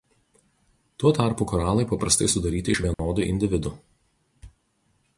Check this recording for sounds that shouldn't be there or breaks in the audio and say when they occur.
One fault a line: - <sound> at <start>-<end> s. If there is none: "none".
- dropout at 2.9-3.0 s